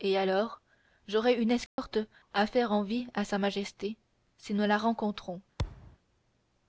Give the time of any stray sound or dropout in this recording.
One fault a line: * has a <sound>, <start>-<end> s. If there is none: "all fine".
* has a dropout, 1.7-1.8 s
* has a thud, 5.6-6.0 s